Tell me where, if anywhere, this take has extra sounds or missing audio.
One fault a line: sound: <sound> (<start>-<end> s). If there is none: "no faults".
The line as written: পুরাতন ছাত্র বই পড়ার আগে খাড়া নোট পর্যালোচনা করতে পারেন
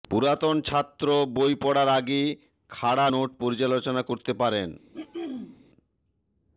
sound: throat clearing (4.9-5.6 s)